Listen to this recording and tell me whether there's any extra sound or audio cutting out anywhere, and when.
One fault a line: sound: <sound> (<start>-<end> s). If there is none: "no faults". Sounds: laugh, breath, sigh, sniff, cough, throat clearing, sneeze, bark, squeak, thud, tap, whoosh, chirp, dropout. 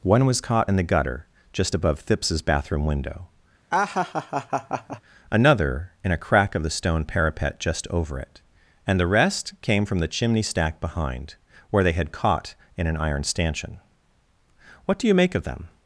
sound: laugh (3.7-5.0 s)